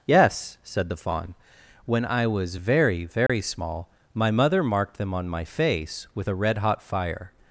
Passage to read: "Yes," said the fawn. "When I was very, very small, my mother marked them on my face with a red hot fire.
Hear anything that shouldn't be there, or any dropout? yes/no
yes